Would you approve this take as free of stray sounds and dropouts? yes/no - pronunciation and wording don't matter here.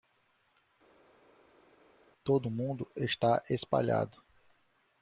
yes